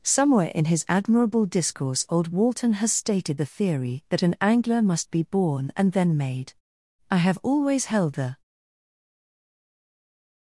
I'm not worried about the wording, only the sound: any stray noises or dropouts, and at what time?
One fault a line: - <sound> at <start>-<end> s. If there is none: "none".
none